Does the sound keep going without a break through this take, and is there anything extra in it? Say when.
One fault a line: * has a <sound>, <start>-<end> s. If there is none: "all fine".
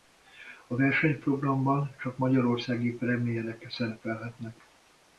all fine